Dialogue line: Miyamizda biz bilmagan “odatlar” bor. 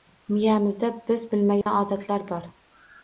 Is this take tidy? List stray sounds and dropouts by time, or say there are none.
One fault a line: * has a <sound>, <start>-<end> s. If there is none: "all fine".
* has a dropout, 1.6-1.7 s